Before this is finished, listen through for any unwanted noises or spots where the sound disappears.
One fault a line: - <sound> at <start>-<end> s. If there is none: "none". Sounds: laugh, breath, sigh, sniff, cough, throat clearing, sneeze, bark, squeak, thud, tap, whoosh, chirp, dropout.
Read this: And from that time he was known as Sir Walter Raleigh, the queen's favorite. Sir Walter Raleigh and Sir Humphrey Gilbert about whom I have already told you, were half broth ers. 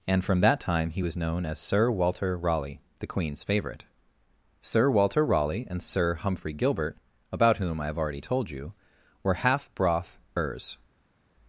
none